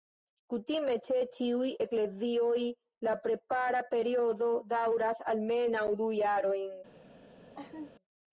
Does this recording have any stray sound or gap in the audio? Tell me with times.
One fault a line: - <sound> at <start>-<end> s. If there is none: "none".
- laugh at 7.5-7.9 s